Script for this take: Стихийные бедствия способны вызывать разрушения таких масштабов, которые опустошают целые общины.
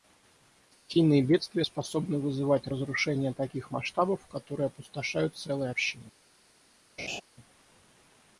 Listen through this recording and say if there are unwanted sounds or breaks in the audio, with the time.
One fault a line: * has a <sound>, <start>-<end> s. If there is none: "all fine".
* has a laugh, 7.0-7.2 s